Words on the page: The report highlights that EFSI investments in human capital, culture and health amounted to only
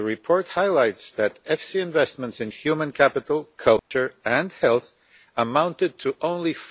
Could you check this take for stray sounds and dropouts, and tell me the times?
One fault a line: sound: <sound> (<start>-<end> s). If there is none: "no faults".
sound: dropout (3.8-3.9 s)